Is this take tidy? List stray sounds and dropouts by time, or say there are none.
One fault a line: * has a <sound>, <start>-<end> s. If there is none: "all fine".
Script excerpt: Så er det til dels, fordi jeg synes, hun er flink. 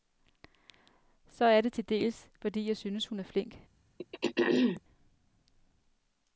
* has a throat clearing, 4.0-4.8 s